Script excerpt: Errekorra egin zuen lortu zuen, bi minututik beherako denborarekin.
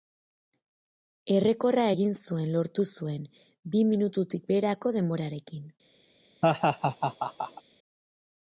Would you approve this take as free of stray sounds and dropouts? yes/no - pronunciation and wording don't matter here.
no